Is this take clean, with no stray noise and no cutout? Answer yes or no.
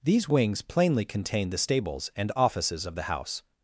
yes